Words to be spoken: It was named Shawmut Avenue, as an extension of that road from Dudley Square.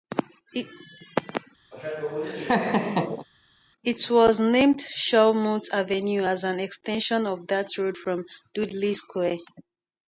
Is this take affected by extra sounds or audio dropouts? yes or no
yes